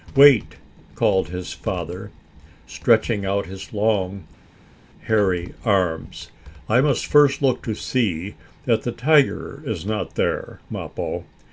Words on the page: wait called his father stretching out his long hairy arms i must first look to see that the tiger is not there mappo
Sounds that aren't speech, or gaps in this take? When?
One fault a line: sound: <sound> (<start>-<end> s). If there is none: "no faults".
no faults